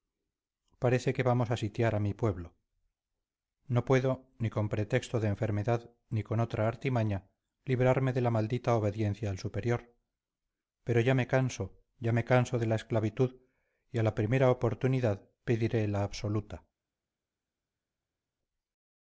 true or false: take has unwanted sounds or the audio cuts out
false